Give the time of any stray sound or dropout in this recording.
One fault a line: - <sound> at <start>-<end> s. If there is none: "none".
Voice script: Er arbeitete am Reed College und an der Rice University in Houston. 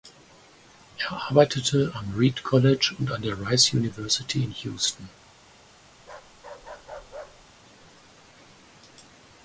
- bark at 6.0-7.5 s